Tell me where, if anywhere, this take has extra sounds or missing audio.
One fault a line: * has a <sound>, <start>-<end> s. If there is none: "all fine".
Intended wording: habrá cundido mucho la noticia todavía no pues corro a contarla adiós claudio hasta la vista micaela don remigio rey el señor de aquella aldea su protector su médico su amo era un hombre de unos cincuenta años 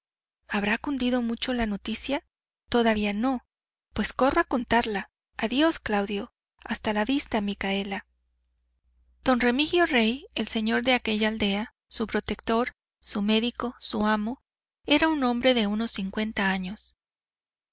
all fine